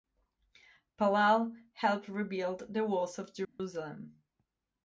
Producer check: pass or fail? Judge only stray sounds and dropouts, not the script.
fail